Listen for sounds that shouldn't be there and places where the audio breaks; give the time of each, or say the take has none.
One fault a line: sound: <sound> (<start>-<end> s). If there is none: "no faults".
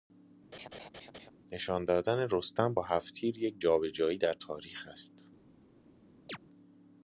sound: laugh (0.5-1.3 s)
sound: chirp (6.3-6.4 s)